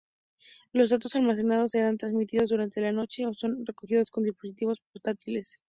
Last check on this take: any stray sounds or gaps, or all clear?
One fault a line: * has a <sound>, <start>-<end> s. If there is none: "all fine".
all fine